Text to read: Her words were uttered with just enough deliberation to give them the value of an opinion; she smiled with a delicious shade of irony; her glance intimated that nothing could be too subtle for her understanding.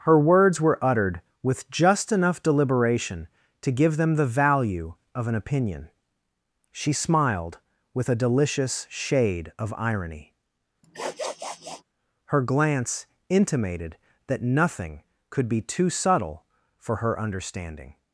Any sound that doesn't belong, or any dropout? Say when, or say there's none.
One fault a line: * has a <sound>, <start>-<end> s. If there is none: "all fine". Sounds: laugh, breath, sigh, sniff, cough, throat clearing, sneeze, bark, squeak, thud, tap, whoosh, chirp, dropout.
* has a sniff, 10.8-11.8 s